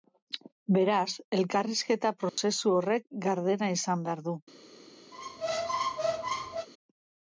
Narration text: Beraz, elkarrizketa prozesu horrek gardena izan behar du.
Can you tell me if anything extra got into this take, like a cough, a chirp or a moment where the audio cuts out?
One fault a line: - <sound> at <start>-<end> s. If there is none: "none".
- dropout at 2.3-2.4 s
- squeak at 5.1-6.7 s